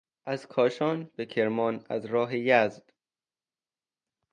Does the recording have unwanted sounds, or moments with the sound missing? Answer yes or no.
no